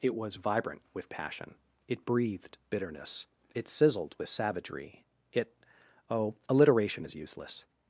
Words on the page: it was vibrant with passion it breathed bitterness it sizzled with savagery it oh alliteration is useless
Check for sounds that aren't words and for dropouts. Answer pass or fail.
pass